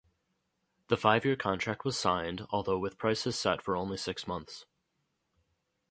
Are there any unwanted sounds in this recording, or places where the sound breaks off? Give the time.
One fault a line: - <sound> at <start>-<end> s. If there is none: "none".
none